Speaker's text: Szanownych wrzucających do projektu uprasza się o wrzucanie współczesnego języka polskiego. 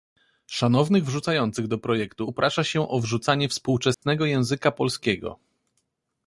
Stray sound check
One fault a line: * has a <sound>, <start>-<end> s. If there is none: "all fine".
* has a dropout, 3.9-4.0 s